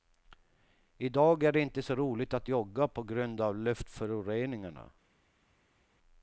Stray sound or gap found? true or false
false